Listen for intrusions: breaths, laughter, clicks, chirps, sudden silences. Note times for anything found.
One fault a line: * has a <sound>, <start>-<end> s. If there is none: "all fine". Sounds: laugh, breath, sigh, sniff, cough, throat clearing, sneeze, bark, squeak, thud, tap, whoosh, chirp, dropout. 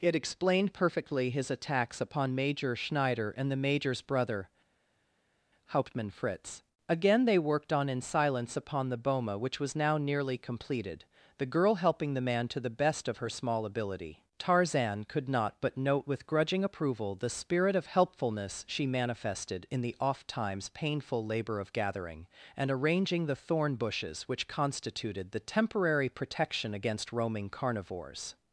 all fine